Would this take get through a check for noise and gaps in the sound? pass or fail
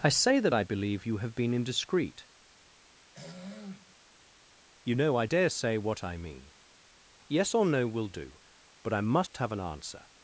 fail